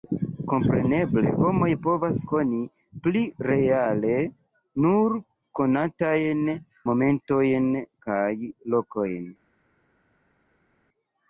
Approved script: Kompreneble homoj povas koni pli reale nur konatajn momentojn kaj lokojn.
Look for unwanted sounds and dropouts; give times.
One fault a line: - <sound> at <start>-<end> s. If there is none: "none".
none